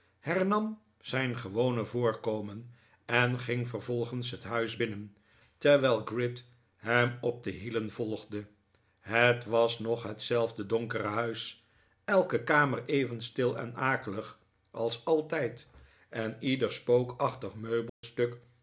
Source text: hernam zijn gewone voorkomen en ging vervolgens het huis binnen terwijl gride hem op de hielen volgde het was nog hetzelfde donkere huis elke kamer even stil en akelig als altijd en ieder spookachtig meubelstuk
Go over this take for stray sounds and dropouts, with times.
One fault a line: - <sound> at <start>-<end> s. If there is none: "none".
- dropout at 17.9-18.0 s